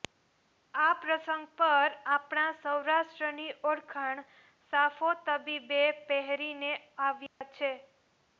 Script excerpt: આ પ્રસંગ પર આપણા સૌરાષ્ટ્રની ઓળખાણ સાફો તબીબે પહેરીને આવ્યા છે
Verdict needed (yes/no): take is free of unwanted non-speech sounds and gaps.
no